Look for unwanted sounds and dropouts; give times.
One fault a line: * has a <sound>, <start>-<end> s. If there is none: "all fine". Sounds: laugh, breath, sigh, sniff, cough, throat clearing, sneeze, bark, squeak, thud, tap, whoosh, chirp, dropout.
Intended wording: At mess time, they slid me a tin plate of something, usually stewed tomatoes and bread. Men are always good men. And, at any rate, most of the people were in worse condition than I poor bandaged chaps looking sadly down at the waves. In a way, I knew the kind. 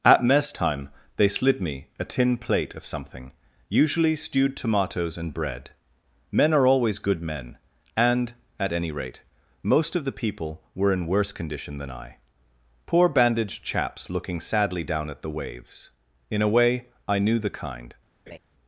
* has a laugh, 18.3-18.4 s